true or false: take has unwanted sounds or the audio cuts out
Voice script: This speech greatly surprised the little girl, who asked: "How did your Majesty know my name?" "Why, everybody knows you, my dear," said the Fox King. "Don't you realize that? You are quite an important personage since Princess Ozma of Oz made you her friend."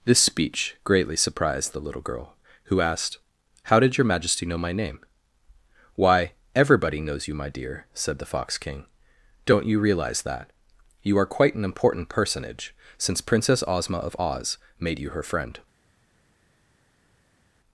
false